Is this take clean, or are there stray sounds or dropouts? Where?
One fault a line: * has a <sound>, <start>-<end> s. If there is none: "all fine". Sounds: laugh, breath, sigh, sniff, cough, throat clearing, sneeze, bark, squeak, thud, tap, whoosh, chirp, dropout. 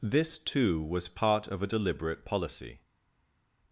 all fine